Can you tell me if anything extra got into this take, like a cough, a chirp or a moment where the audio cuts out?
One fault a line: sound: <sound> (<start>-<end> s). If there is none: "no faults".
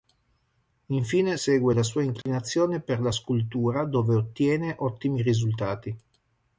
sound: dropout (2.2-2.3 s)